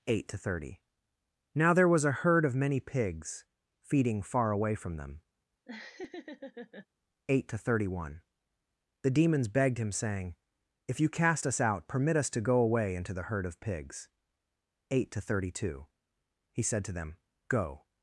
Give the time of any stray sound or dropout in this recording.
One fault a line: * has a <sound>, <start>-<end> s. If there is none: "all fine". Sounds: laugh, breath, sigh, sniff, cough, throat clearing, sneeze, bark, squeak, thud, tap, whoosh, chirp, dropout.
* has a laugh, 5.7-6.9 s